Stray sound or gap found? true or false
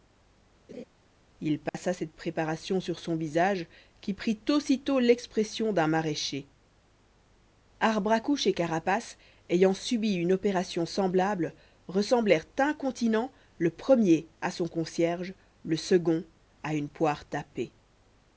true